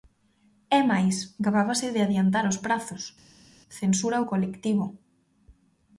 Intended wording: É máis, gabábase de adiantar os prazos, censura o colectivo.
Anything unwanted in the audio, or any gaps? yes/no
no